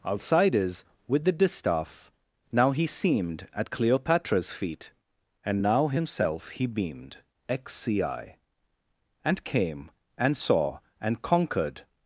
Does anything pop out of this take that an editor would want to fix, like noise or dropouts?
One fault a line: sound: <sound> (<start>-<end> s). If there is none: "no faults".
no faults